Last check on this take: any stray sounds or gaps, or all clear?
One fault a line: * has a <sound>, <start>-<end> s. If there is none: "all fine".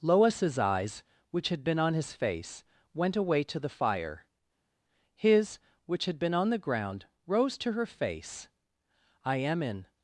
all fine